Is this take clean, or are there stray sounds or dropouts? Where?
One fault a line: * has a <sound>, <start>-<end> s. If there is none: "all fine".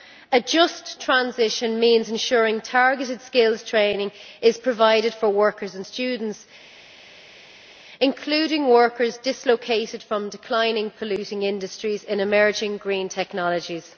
all fine